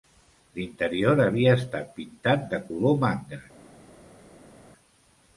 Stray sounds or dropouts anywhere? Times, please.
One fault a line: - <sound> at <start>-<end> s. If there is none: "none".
none